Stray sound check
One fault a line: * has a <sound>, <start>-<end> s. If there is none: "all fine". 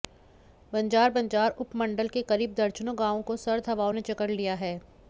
all fine